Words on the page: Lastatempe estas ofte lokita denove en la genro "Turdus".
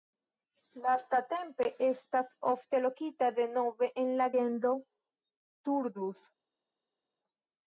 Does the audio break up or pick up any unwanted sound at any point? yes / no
no